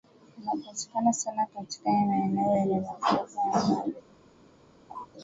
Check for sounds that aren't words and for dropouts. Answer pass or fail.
fail